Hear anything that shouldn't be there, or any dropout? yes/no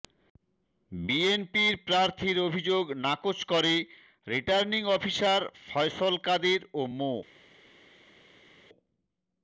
no